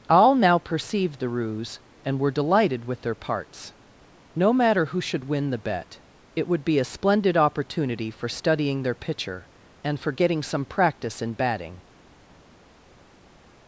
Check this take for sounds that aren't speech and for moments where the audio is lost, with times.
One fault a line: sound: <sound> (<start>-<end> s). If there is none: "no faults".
no faults